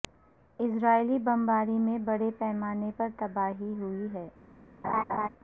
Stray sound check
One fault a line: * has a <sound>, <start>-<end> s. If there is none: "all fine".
* has a laugh, 4.8-5.3 s